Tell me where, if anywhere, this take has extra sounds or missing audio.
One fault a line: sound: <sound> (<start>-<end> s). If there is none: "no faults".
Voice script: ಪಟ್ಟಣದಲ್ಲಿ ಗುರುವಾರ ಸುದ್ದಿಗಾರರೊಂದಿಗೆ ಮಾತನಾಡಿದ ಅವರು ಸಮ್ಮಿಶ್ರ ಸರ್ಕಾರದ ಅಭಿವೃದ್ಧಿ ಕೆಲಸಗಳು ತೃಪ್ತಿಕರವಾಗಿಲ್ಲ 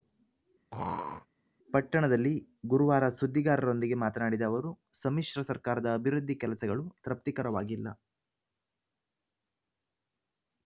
sound: throat clearing (0.7-1.3 s)